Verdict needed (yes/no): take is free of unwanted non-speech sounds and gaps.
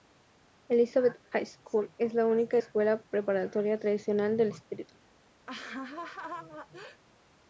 no